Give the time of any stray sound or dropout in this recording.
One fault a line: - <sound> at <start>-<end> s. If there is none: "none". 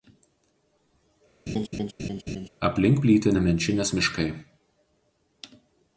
- laugh at 1.5-2.5 s